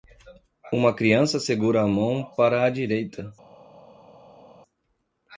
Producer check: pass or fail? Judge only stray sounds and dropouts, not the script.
pass